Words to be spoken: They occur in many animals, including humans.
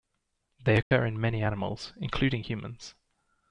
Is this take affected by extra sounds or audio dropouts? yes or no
yes